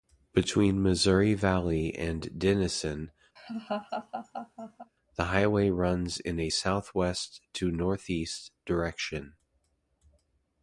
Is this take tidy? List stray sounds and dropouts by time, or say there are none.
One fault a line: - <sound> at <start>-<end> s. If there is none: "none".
- laugh at 3.4-4.9 s